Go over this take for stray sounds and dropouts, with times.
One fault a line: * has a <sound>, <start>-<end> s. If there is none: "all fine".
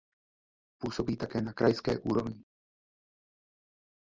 all fine